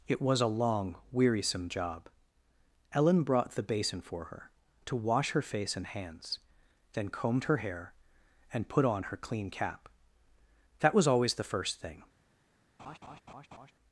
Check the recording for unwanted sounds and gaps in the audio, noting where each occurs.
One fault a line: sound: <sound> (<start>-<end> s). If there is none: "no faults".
sound: laugh (12.8-13.7 s)